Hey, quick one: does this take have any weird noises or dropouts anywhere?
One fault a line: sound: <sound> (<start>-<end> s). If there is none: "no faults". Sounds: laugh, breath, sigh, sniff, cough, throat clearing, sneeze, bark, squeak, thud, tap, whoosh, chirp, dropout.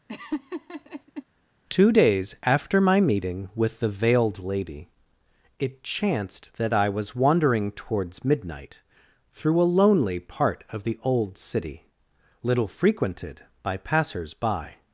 sound: laugh (0.1-1.2 s)